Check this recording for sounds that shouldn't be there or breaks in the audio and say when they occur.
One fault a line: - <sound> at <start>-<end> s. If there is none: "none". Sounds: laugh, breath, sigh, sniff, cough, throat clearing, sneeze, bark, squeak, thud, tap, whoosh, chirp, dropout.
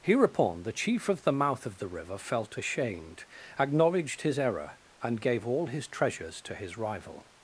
none